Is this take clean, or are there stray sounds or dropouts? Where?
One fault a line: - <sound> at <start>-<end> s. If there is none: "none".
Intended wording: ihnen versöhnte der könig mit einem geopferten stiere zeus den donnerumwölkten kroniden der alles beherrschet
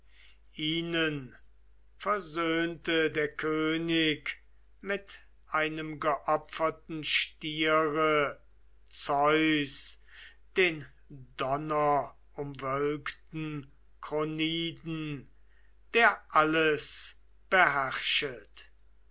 none